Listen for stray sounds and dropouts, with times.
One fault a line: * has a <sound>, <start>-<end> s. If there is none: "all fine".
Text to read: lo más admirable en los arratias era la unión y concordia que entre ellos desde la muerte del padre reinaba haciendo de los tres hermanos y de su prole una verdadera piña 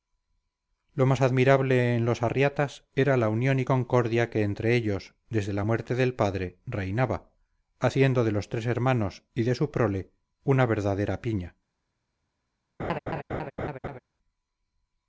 * has a laugh, 12.8-14.0 s